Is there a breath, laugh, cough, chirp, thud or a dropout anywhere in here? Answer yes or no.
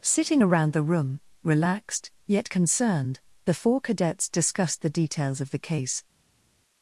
no